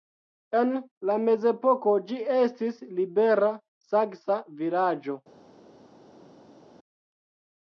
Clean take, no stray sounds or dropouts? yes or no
yes